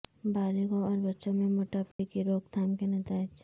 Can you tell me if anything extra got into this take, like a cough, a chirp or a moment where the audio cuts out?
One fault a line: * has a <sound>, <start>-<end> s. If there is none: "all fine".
* has a dropout, 1.9-2.0 s